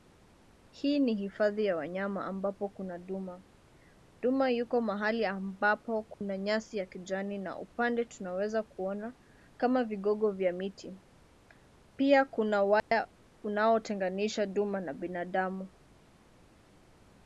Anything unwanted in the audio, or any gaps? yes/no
yes